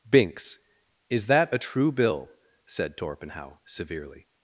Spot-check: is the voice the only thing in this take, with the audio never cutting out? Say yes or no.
yes